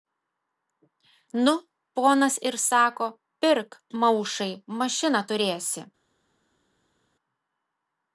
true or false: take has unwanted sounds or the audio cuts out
false